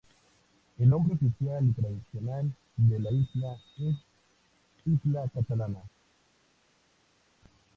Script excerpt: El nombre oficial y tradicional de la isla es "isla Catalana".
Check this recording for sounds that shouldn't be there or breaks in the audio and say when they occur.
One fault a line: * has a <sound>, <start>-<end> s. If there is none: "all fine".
all fine